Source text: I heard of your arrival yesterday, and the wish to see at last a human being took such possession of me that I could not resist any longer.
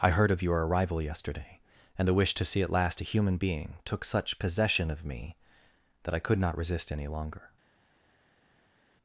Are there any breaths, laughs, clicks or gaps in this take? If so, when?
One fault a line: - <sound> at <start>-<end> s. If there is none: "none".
none